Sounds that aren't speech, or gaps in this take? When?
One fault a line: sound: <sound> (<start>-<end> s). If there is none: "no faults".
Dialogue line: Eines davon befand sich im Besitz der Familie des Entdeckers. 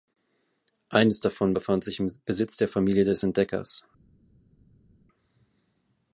no faults